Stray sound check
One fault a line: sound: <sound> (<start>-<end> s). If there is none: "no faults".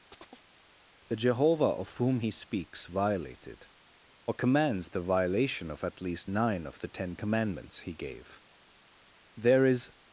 sound: chirp (0.1-0.5 s)